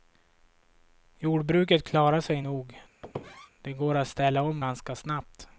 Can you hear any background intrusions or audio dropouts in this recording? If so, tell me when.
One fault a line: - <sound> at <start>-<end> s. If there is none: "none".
- squeak at 3.0-3.5 s